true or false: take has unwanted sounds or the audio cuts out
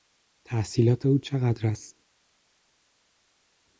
false